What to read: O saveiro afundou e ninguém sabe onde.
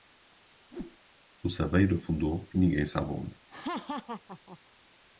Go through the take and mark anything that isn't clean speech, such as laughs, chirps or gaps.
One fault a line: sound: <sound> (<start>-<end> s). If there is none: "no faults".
sound: whoosh (0.7-1.0 s)
sound: laugh (3.5-4.6 s)